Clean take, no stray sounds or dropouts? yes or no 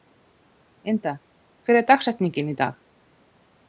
yes